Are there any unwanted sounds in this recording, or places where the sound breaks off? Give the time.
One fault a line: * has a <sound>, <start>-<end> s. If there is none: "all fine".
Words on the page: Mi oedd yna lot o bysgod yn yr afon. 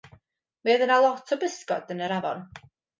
all fine